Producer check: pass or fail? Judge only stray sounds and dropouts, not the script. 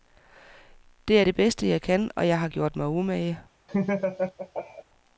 fail